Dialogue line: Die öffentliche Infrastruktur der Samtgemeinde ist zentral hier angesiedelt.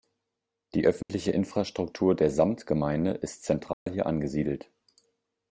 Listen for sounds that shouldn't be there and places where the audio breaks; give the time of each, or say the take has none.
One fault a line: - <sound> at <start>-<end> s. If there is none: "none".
- dropout at 1.0-1.1 s
- dropout at 3.7-3.9 s